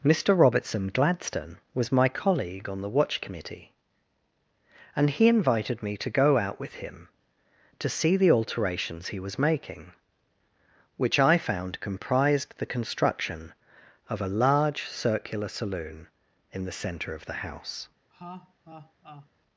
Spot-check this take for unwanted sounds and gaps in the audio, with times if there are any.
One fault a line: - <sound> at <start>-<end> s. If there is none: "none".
- laugh at 18.1-19.3 s